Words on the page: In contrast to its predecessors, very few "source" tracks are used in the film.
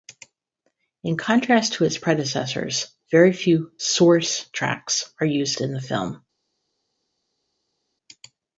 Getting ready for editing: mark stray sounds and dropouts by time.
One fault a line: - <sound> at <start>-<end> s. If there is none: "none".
none